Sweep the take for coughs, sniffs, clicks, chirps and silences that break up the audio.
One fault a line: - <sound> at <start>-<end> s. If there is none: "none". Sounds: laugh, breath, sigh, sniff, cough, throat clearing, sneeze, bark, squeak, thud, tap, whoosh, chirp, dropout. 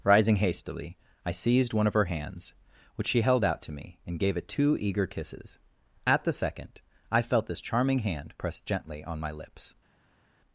none